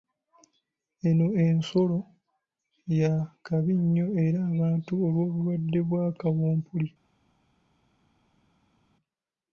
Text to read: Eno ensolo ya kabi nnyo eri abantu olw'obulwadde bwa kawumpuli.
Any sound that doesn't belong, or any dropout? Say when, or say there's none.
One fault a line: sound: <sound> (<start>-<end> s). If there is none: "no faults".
no faults